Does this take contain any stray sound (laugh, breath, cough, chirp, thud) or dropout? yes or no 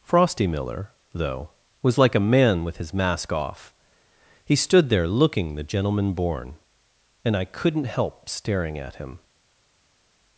no